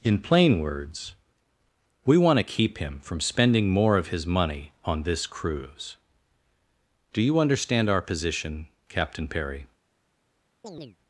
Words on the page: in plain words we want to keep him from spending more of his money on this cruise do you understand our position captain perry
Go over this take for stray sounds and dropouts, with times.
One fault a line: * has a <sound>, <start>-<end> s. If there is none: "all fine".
* has a chirp, 10.6-11.0 s